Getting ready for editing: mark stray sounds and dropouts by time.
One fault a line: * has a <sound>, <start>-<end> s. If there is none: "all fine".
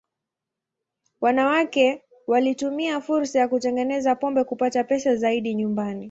all fine